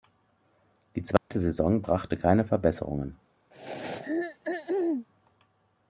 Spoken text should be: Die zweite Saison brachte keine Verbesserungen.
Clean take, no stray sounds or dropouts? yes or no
no